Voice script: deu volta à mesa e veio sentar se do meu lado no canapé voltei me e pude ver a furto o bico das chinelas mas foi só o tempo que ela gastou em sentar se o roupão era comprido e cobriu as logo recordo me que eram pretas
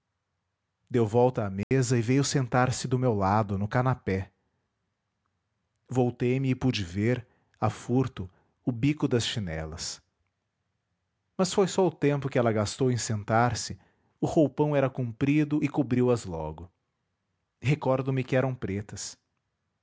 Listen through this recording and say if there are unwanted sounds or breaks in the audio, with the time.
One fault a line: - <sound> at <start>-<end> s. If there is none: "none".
- dropout at 1.6-1.7 s